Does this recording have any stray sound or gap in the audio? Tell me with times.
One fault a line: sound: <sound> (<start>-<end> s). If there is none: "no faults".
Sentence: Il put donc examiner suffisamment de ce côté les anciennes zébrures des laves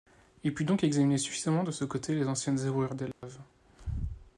sound: dropout (3.1-3.2 s)